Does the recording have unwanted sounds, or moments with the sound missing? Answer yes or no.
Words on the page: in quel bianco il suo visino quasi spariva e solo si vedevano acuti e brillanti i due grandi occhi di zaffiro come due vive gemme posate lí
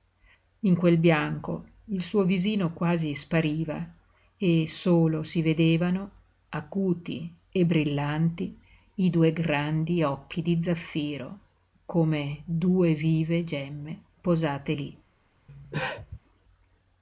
yes